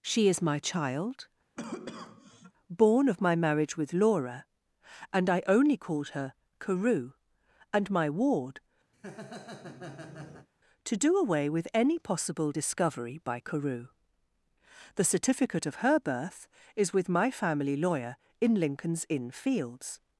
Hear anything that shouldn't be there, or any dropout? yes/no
yes